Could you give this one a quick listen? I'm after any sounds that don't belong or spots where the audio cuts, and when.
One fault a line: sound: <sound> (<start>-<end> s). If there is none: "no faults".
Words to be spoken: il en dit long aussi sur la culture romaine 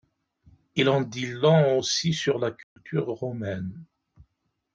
sound: dropout (2.6-2.8 s)